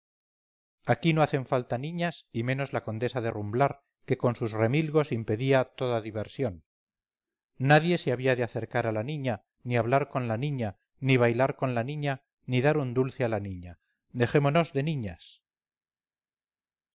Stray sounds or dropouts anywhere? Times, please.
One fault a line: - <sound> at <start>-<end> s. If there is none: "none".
none